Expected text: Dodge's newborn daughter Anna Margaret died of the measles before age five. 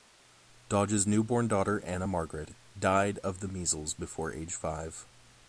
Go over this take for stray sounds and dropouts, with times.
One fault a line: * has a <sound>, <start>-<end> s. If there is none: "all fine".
all fine